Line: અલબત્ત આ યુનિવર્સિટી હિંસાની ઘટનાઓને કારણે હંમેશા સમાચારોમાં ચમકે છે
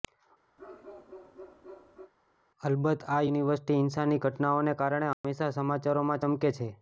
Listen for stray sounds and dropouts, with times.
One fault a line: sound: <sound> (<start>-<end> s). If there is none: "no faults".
sound: bark (0.6-2.1 s)
sound: dropout (5.1-5.2 s)